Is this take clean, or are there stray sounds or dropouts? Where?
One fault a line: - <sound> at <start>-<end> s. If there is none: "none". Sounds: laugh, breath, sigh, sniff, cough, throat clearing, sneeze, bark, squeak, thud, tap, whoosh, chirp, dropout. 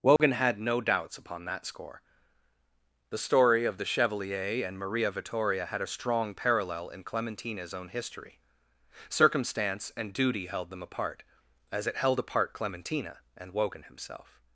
- dropout at 0.2-0.2 s